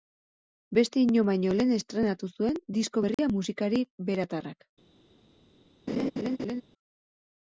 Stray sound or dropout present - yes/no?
yes